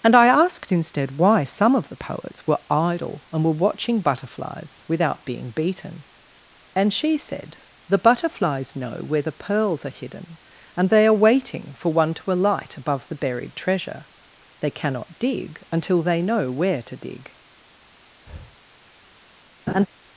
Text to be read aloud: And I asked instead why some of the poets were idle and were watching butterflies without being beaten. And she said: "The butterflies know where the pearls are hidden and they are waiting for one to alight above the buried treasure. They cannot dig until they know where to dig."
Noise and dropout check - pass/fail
fail